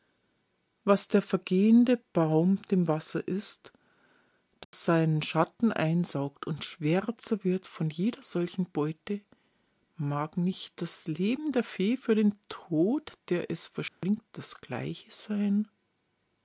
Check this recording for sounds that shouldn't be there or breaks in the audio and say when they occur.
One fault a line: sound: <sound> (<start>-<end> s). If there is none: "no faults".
sound: dropout (4.6-4.7 s)
sound: dropout (13.9-14.0 s)